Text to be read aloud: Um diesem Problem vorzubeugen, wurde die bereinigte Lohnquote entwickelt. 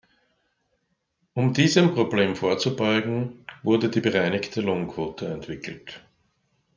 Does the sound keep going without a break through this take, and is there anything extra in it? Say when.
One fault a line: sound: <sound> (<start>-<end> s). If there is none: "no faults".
no faults